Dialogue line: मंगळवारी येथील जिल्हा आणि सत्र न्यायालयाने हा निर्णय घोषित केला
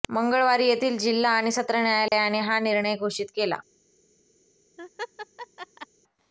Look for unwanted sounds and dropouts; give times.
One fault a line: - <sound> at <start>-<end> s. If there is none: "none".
- dropout at 2.1-2.1 s
- laugh at 4.8-5.9 s